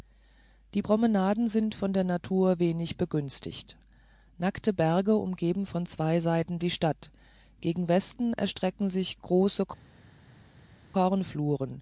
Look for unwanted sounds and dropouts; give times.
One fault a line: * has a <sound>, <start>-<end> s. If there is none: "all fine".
all fine